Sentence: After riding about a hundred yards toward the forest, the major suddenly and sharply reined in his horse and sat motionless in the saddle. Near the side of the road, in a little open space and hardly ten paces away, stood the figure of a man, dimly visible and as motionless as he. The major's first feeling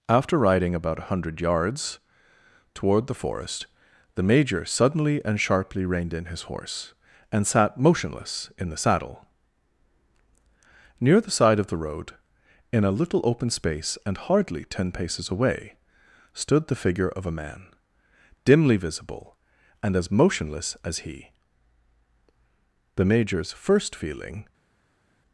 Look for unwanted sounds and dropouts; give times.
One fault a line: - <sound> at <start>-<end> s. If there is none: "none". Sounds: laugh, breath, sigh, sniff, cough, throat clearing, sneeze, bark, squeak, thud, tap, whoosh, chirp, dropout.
none